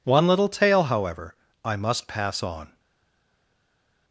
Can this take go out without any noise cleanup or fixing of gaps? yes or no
yes